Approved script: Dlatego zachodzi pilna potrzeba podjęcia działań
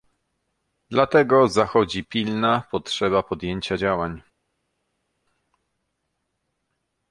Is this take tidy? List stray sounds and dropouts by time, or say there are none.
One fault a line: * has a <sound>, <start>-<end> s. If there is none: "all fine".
all fine